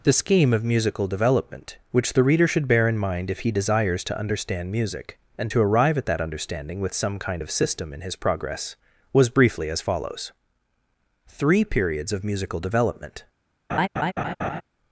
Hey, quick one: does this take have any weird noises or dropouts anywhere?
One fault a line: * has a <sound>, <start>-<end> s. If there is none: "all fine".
* has a laugh, 13.7-14.6 s